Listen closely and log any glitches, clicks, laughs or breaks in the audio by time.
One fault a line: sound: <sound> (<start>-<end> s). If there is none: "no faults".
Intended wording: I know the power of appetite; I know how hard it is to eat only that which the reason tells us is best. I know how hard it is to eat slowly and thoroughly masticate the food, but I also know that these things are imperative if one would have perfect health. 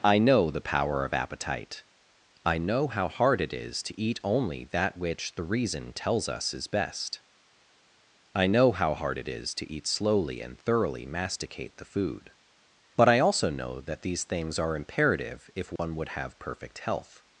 sound: dropout (15.8-15.8 s)